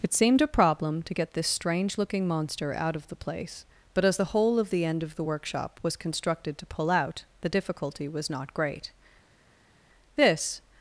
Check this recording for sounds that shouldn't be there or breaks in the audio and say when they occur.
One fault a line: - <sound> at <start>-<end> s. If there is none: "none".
none